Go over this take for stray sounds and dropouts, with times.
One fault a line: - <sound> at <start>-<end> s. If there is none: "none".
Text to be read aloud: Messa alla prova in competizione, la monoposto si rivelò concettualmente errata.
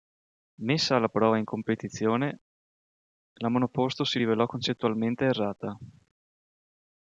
none